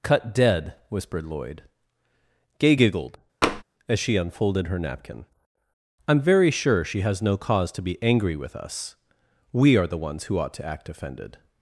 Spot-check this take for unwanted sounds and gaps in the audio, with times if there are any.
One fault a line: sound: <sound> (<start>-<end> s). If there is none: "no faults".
sound: tap (3.4-3.6 s)